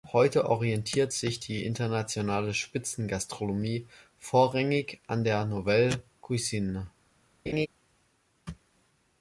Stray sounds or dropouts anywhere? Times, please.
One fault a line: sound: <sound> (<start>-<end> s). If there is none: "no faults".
sound: laugh (7.5-7.7 s)